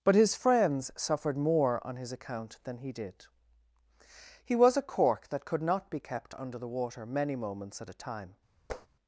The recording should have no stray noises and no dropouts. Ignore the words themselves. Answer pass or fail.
fail